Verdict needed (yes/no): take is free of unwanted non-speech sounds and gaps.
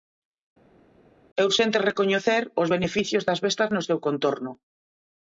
yes